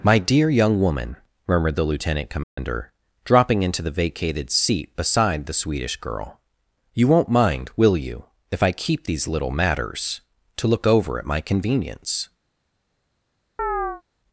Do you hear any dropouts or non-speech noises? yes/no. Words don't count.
yes